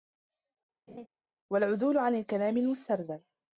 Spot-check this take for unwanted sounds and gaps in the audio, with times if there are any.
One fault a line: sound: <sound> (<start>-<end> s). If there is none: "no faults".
sound: laugh (0.9-1.1 s)